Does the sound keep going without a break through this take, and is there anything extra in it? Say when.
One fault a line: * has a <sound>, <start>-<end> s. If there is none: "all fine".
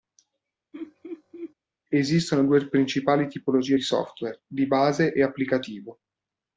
* has a laugh, 0.7-1.5 s